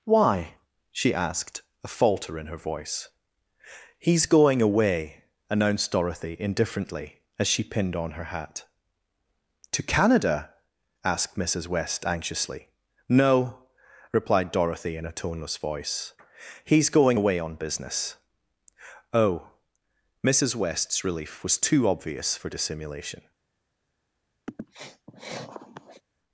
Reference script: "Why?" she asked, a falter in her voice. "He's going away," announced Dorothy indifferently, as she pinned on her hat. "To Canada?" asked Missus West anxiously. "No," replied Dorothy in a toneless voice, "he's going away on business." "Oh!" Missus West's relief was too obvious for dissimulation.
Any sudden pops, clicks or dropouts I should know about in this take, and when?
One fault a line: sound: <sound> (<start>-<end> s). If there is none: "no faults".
sound: sniff (24.5-26.0 s)